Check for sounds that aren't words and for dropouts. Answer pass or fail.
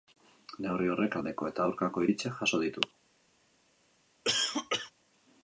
fail